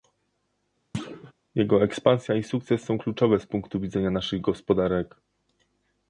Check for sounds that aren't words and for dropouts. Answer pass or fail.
fail